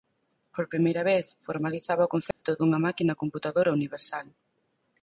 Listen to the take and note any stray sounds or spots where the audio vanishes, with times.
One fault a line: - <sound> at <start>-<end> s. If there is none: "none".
- dropout at 2.3-2.4 s